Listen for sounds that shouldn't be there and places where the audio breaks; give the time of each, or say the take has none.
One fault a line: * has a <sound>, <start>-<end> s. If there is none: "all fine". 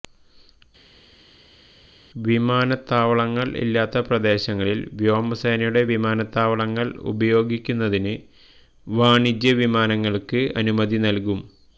all fine